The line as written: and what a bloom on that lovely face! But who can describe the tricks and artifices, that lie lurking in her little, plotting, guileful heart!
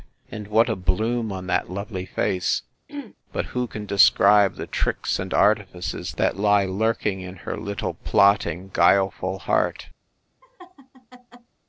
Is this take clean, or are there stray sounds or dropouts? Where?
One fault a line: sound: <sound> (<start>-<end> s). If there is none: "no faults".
sound: throat clearing (2.9-3.1 s)
sound: laugh (10.4-11.5 s)